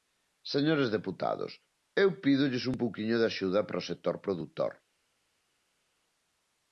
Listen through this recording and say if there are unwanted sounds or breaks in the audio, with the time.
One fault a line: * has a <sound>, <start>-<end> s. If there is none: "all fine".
all fine